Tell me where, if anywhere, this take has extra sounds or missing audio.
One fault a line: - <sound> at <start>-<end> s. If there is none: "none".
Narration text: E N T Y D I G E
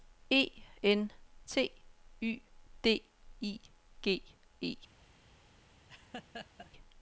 - laugh at 5.9-6.7 s